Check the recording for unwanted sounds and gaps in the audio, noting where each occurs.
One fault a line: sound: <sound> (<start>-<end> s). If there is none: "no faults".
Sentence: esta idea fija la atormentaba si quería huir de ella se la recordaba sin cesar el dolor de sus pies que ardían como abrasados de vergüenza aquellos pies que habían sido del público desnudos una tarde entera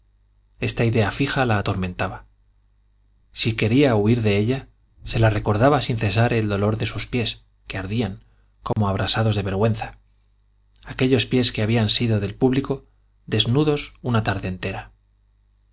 sound: dropout (8.7-8.8 s)